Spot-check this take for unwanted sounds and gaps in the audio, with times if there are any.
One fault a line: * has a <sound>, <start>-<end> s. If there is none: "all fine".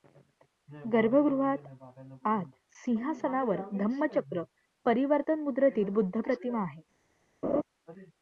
* has a laugh, 7.4-7.6 s